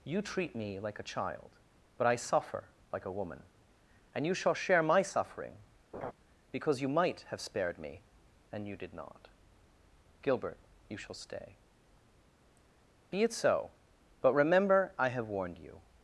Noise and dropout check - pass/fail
fail